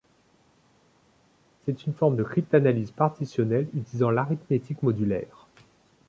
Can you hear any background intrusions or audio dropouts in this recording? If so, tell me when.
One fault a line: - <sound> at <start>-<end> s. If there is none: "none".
none